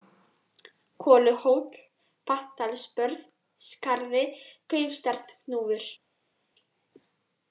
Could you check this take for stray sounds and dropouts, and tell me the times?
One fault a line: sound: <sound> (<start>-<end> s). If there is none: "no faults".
no faults